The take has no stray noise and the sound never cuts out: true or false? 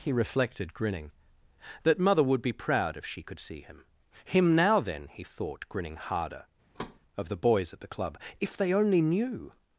false